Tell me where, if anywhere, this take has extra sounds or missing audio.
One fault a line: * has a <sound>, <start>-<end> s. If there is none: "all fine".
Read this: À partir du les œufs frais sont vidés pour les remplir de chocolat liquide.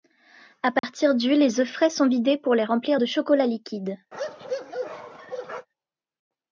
* has a dropout, 0.8-0.8 s
* has a bark, 4.1-5.7 s